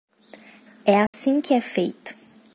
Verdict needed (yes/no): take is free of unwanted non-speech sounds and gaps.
no